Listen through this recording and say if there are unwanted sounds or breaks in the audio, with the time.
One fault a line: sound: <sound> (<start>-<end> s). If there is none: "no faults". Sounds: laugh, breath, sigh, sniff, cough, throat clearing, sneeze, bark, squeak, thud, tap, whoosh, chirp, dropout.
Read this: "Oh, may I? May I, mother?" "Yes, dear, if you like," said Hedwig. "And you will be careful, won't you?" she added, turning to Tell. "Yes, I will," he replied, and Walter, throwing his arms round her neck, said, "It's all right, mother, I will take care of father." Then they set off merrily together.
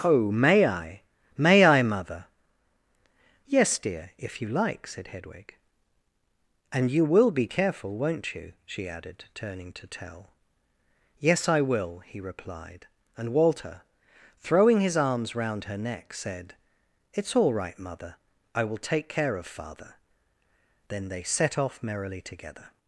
no faults